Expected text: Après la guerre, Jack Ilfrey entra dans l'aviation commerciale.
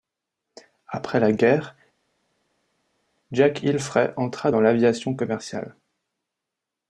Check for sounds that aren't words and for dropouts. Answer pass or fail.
pass